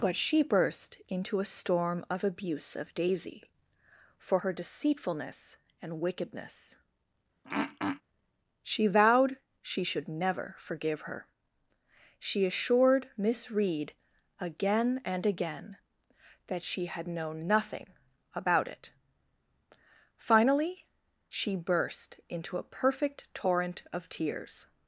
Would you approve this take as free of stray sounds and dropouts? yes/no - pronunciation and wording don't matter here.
no